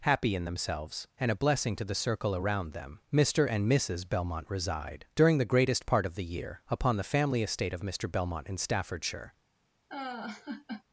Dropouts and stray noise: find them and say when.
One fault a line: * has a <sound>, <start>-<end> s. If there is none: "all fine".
* has a laugh, 9.9-10.8 s